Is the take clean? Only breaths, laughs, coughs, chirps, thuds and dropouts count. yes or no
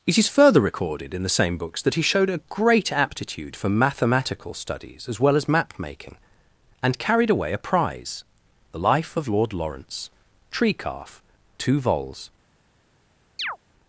no